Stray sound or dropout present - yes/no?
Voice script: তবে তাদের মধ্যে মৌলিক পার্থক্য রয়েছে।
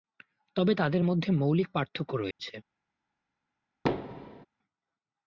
yes